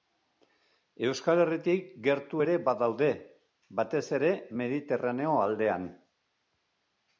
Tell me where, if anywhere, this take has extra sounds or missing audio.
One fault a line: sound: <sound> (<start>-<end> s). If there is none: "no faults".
no faults